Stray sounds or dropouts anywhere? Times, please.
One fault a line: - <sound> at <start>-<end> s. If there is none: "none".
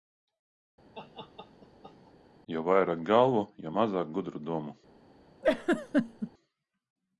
- laugh at 0.9-2.1 s
- laugh at 5.4-6.3 s